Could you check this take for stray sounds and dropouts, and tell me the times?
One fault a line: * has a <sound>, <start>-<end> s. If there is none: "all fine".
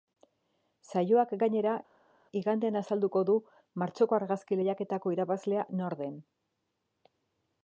all fine